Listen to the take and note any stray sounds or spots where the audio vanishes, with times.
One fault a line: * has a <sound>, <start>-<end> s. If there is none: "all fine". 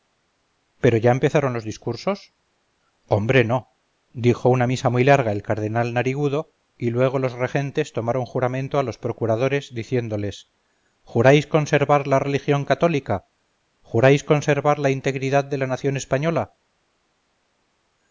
all fine